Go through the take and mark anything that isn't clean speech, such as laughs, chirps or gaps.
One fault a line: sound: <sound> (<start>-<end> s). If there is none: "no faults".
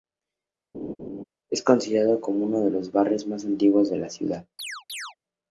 sound: laugh (0.7-1.2 s)
sound: chirp (4.6-5.2 s)